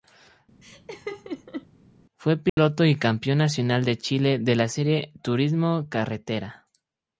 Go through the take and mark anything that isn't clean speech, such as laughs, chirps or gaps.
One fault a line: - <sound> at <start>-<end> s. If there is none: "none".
- laugh at 0.6-1.7 s
- dropout at 2.5-2.6 s